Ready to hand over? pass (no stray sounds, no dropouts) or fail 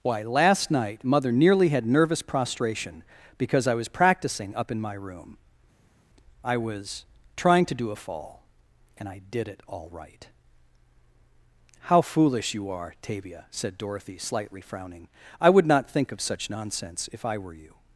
pass